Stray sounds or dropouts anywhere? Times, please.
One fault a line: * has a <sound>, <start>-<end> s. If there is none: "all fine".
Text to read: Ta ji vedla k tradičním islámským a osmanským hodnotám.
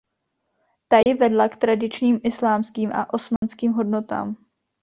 * has a dropout, 1.0-1.1 s
* has a dropout, 3.4-3.4 s